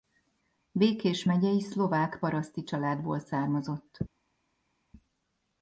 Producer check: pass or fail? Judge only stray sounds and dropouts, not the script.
pass